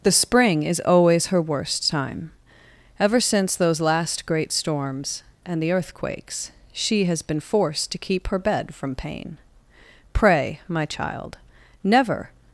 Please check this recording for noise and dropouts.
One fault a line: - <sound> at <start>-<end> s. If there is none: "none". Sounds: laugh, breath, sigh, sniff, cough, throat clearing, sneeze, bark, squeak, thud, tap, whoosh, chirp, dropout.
none